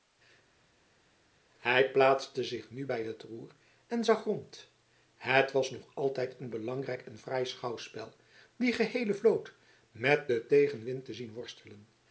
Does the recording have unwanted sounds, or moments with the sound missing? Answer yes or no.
no